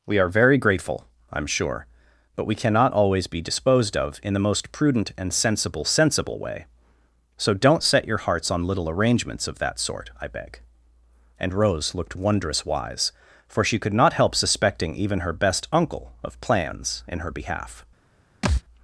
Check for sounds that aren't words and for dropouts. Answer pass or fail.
fail